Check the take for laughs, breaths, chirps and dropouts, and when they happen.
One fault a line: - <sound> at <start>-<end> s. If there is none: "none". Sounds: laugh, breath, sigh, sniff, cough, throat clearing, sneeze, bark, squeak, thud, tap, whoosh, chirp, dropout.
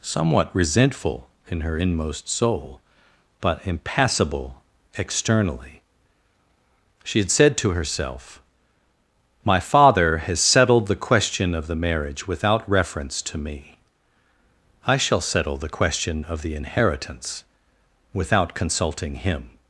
none